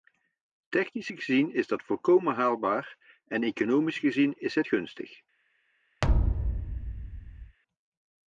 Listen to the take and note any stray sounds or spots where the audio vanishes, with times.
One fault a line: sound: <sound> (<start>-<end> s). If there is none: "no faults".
sound: thud (6.0-7.6 s)